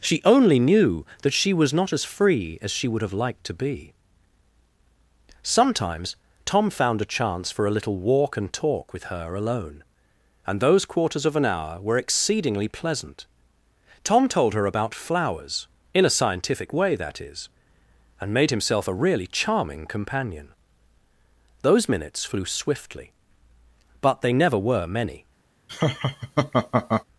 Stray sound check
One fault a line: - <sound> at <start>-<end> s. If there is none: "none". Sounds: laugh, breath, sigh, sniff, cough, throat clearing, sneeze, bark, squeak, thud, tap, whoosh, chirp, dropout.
- laugh at 25.7-27.0 s